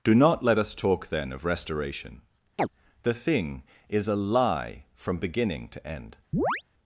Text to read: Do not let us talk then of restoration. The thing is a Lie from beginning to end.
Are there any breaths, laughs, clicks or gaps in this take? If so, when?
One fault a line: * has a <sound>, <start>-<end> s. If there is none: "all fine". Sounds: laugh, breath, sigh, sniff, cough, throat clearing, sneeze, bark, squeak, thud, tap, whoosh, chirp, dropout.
* has a chirp, 2.6-2.7 s
* has a chirp, 6.3-6.6 s